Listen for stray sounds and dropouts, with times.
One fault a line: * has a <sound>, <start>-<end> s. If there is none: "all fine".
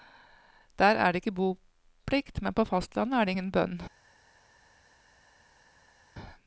all fine